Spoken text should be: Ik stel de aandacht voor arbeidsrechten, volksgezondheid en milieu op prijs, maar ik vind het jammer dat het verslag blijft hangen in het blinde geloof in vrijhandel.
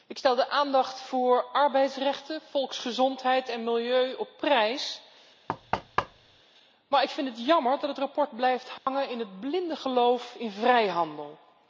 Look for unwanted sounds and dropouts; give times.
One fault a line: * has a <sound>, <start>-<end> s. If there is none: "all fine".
* has a thud, 5.5-6.4 s
* has a dropout, 8.8-8.9 s